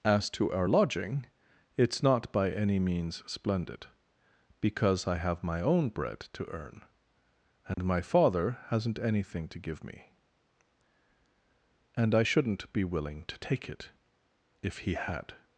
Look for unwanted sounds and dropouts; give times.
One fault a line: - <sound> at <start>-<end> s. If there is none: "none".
- dropout at 7.7-7.8 s